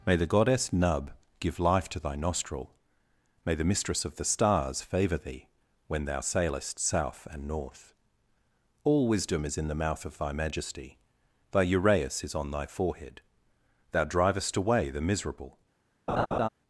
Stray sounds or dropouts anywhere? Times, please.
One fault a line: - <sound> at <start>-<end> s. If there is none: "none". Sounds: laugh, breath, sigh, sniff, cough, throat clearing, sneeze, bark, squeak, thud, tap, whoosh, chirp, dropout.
- laugh at 16.1-16.5 s